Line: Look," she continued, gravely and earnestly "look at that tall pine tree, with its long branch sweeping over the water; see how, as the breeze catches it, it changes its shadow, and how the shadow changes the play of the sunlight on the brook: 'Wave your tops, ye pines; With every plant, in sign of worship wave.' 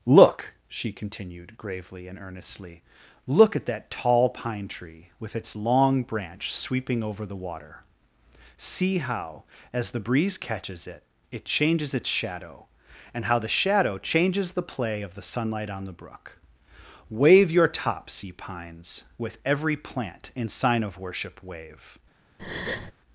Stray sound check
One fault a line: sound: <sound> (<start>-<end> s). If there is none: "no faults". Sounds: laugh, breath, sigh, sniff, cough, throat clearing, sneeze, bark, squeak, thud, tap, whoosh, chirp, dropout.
sound: breath (22.4-22.9 s)